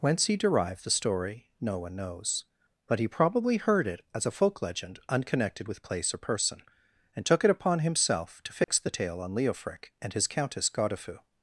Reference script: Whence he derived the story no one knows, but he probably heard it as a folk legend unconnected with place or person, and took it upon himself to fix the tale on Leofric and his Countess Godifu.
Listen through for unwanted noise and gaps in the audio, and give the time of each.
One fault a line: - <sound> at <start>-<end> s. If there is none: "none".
- dropout at 8.6-8.7 s